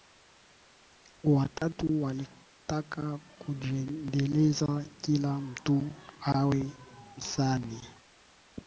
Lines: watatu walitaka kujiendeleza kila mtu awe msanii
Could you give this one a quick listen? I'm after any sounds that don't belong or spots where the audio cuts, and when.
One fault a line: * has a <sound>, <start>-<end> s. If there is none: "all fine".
* has a dropout, 1.6-1.6 s